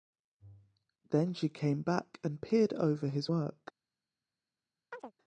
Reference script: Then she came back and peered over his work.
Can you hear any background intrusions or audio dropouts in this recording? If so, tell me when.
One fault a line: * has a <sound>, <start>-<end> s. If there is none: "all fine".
* has a chirp, 4.9-5.1 s